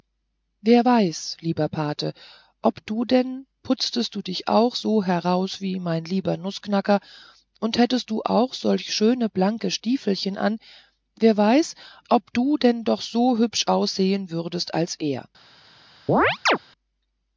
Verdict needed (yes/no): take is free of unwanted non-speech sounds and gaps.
no